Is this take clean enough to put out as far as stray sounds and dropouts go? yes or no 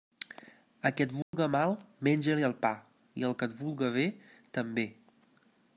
no